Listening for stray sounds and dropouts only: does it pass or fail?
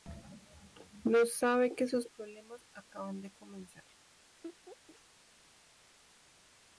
fail